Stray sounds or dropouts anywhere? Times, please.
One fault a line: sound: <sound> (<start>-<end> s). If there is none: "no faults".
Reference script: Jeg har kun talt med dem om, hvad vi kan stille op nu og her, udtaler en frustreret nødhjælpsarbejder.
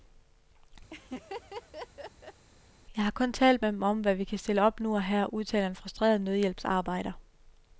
sound: laugh (0.9-2.4 s)